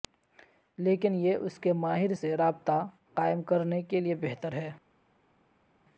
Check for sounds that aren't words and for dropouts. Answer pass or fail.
pass